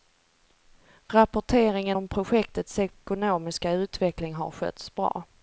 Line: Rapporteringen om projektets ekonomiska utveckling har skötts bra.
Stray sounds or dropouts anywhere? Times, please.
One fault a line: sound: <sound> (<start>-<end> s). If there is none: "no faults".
no faults